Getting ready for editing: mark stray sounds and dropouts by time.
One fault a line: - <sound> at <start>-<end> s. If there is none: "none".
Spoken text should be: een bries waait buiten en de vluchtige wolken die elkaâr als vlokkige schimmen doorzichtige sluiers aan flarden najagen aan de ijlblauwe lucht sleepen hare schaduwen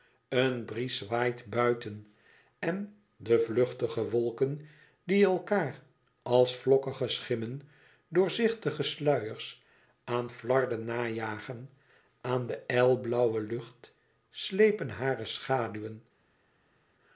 none